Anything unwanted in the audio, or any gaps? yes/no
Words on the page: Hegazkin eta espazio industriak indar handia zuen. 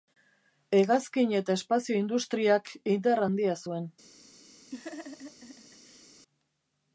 yes